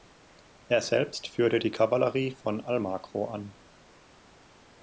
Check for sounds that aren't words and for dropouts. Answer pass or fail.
pass